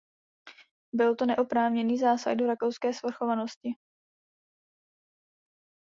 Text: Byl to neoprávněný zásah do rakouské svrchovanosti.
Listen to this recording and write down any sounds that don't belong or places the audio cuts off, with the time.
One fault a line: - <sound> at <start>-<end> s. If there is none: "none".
none